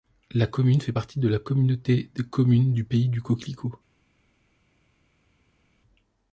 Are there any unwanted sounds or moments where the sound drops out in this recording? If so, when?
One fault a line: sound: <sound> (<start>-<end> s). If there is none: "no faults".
no faults